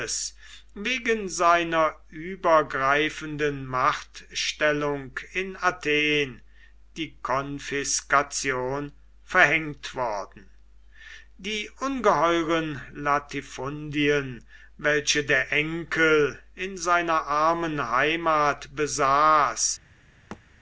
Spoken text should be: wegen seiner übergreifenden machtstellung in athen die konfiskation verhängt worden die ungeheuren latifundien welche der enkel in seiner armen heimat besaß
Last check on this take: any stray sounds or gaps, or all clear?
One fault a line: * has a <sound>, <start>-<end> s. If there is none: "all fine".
* has a thud, 20.3-20.4 s